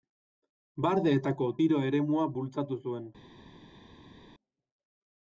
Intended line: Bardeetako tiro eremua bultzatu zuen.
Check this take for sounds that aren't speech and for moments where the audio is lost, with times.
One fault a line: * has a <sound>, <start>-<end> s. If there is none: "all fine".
all fine